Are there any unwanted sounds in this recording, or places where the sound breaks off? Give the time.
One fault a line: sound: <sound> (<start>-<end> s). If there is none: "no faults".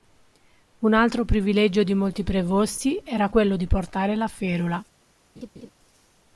sound: laugh (5.4-5.7 s)